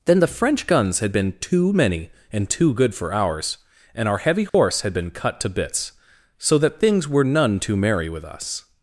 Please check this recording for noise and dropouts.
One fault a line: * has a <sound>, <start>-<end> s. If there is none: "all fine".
* has a dropout, 4.5-4.5 s